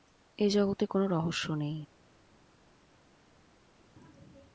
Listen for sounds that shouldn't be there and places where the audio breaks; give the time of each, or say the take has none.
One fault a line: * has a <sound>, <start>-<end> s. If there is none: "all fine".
all fine